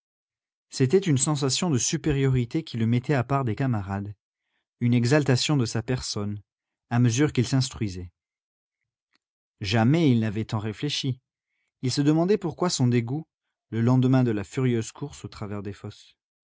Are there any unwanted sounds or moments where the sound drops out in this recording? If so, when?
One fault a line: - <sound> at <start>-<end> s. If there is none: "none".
none